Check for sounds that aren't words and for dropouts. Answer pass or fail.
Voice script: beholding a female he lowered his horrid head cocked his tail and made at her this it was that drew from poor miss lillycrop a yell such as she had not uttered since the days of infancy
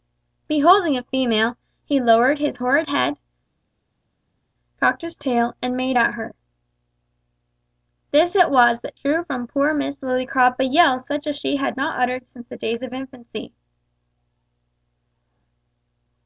pass